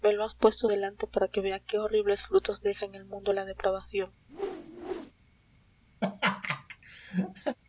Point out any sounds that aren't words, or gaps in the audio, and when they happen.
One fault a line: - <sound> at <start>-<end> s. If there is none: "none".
- whoosh at 4.3-5.1 s
- laugh at 6.0-7.6 s